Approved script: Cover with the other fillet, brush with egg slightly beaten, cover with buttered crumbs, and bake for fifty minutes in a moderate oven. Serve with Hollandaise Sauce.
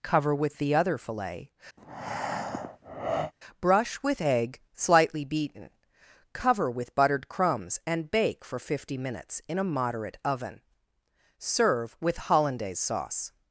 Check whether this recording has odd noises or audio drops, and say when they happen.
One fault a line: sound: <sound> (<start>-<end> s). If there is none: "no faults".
sound: breath (1.8-3.3 s)